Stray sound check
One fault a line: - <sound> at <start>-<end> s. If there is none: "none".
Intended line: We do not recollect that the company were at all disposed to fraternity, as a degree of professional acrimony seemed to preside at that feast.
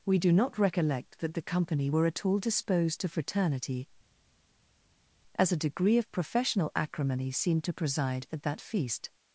none